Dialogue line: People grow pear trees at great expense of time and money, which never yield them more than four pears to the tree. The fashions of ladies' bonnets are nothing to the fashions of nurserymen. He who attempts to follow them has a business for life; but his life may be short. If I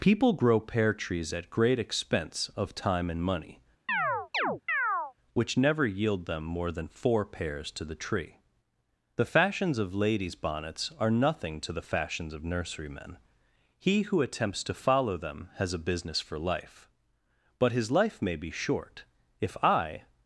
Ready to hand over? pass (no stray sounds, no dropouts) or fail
fail